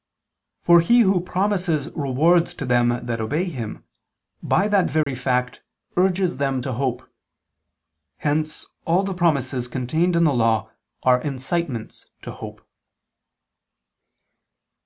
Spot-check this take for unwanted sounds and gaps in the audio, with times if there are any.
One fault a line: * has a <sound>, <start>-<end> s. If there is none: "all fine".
* has a dropout, 5.0-5.1 s